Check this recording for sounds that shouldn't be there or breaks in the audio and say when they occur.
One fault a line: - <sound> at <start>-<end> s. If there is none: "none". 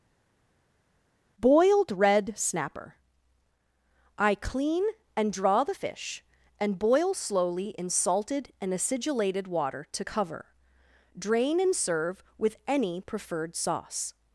none